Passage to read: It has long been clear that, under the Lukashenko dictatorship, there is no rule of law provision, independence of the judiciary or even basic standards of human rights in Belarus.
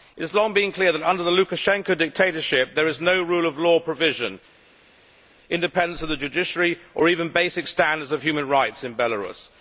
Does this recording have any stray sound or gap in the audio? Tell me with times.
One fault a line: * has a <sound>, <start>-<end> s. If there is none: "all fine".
all fine